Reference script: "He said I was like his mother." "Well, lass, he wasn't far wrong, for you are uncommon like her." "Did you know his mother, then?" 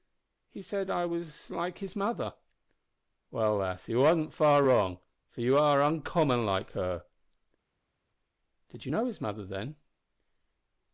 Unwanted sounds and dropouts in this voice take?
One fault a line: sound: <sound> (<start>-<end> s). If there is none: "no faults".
no faults